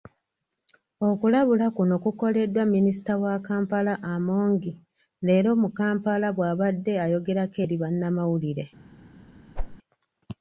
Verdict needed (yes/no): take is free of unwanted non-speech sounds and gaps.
no